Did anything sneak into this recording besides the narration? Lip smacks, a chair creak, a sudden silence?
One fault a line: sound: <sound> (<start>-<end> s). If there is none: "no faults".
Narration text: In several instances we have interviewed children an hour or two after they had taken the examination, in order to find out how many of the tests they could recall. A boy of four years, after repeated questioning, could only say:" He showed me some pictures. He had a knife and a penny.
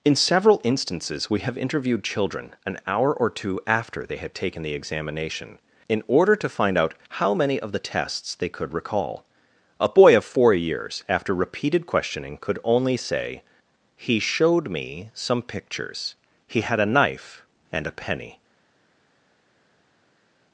no faults